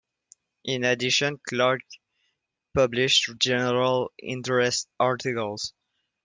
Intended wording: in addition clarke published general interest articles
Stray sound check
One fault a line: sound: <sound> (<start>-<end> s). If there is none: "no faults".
no faults